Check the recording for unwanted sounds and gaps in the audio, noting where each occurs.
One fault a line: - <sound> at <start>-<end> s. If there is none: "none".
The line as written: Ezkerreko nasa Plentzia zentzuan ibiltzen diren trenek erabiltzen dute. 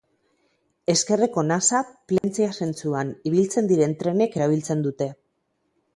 - dropout at 2.2-2.2 s